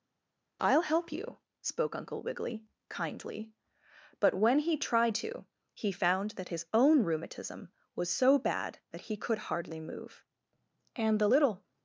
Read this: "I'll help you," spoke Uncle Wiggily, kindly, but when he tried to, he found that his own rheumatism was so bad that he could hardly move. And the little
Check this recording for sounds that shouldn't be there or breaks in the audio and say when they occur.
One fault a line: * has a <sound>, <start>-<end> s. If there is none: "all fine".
all fine